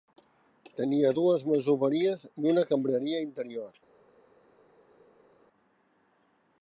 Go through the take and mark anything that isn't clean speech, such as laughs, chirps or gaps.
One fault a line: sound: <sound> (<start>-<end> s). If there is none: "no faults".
no faults